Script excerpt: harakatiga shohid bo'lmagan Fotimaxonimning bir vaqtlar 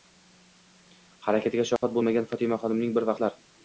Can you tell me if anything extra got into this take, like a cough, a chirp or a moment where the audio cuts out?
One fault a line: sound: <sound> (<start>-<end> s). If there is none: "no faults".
sound: dropout (1.8-1.8 s)